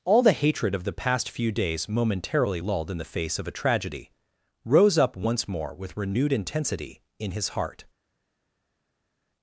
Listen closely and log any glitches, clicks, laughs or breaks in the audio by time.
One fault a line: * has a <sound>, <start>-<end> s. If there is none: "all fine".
all fine